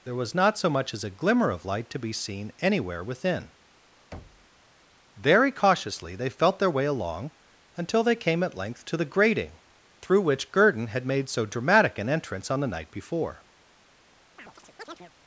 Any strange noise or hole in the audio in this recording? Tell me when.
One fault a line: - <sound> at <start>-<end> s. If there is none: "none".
- thud at 4.1-4.5 s
- chirp at 14.4-15.1 s